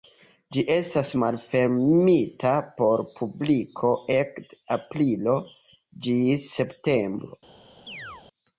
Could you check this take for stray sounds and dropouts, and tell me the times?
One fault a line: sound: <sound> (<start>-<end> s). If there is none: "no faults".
sound: chirp (7.9-8.3 s)